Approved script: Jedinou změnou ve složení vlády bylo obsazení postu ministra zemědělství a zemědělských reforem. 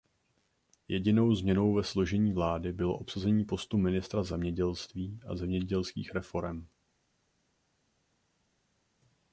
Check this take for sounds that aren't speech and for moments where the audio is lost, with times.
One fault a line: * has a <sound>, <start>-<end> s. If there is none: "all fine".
all fine